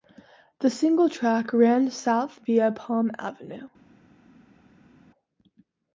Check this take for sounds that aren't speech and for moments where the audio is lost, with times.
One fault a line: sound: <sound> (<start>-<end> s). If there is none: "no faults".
no faults